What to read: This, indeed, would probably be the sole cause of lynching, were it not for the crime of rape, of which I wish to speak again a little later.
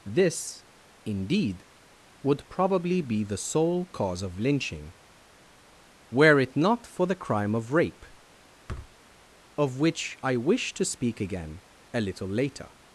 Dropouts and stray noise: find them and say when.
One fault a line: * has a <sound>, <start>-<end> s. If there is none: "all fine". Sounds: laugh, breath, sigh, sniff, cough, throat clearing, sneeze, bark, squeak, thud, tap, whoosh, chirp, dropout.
* has a thud, 8.7-8.9 s